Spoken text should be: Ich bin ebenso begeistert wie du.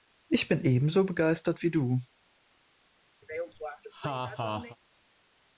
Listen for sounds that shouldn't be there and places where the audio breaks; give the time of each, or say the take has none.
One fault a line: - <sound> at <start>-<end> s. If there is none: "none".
- laugh at 3.2-4.8 s